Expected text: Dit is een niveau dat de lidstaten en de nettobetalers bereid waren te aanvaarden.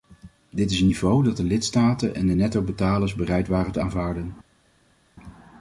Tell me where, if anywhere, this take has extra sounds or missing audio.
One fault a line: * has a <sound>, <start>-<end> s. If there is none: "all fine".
all fine